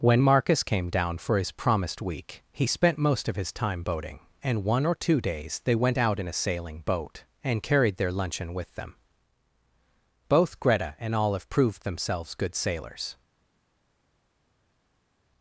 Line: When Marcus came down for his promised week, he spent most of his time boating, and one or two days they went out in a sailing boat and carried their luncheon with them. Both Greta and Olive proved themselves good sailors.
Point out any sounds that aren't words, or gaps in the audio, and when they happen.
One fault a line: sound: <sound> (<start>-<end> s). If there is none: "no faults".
no faults